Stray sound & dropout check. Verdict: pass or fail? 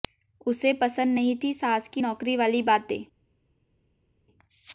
pass